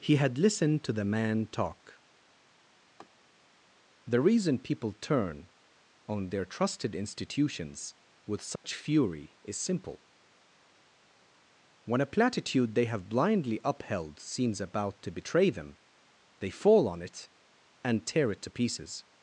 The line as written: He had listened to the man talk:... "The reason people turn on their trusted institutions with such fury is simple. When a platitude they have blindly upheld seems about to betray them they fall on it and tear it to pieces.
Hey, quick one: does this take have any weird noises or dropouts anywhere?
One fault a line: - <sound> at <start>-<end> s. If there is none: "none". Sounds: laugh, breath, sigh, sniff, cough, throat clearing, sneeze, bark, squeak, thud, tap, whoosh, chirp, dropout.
- laugh at 3.0-3.1 s
- dropout at 8.6-8.6 s